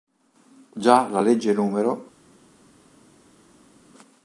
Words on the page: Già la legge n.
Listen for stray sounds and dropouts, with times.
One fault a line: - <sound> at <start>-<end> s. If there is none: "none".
none